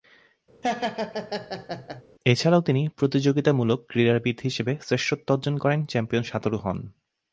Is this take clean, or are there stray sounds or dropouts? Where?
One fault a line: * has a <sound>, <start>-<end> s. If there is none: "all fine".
* has a laugh, 0.6-2.0 s